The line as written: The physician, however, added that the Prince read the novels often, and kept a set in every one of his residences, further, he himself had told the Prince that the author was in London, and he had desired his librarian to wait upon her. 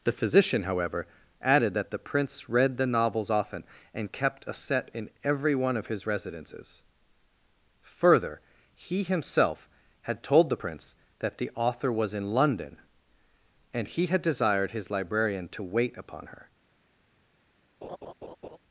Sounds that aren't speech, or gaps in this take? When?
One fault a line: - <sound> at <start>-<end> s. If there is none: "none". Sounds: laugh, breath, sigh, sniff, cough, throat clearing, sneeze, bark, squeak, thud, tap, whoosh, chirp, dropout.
- laugh at 17.8-18.6 s